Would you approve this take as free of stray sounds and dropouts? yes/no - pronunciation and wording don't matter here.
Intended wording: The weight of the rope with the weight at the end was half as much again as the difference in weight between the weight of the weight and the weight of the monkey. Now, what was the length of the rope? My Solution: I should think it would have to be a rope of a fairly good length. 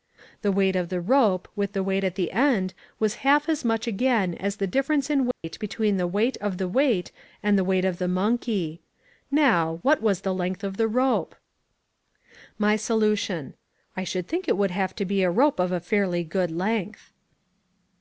no